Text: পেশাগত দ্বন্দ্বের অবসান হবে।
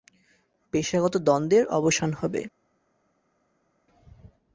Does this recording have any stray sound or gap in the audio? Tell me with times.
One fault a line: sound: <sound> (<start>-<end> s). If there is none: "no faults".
no faults